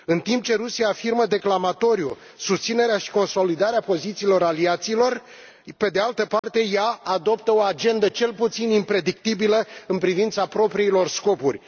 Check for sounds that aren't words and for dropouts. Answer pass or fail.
fail